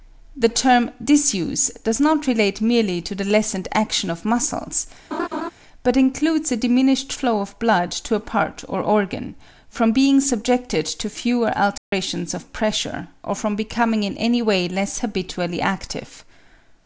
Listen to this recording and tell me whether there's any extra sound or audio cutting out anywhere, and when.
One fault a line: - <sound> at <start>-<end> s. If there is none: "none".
- laugh at 5.1-5.5 s
- dropout at 11.8-11.9 s